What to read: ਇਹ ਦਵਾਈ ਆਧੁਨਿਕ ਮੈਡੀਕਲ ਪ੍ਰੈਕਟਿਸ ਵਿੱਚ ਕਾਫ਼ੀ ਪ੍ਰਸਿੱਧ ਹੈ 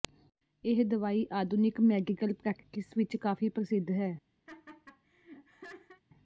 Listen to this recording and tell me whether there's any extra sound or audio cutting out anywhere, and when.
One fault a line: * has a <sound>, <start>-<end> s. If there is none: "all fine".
* has a laugh, 4.5-6.0 s